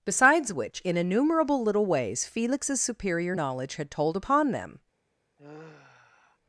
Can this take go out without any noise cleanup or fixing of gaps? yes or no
no